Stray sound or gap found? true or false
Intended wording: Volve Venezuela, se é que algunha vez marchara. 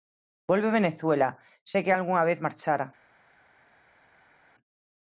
false